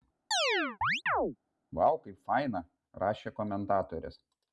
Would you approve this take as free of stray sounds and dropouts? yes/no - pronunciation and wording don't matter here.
no